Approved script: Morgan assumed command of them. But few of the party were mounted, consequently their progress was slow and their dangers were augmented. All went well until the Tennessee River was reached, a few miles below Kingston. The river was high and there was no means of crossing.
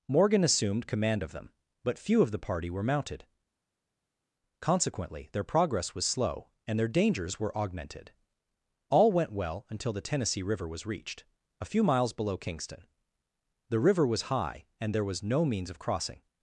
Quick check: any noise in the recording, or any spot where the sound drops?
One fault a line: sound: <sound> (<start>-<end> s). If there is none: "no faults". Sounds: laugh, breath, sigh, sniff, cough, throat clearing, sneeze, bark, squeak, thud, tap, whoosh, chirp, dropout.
no faults